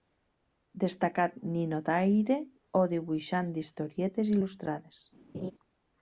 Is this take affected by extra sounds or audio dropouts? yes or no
yes